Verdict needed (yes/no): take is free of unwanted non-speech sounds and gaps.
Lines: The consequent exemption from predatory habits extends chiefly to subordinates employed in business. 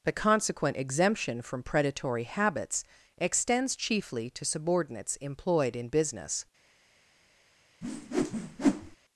no